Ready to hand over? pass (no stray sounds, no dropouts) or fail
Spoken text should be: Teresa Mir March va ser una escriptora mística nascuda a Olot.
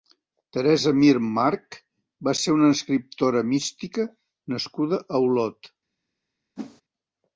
fail